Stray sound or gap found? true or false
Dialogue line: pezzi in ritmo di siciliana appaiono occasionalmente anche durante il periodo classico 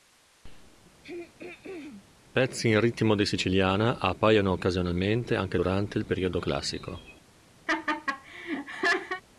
true